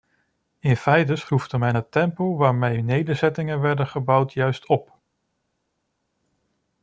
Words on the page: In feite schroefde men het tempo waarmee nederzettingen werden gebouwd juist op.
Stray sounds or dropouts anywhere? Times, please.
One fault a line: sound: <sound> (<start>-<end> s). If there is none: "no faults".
no faults